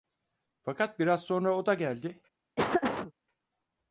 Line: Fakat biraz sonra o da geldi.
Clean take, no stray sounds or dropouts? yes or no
no